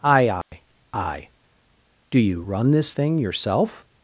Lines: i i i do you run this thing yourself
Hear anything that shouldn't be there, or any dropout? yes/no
yes